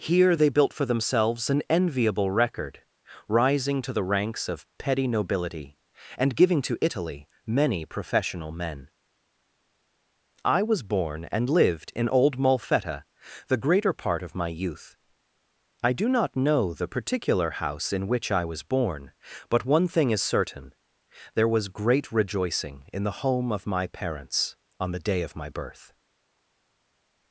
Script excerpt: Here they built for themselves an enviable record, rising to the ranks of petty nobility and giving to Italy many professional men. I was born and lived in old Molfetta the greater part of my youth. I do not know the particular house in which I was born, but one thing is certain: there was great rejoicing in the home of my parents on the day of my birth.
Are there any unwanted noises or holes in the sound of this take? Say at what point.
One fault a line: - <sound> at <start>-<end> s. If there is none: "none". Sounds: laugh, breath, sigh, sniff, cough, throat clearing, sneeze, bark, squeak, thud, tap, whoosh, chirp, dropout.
none